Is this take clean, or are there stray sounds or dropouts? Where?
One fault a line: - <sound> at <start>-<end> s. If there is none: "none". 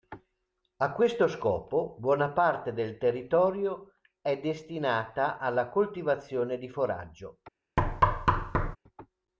- thud at 7.8-8.8 s